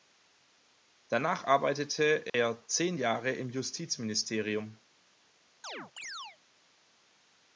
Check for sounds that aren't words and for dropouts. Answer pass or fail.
fail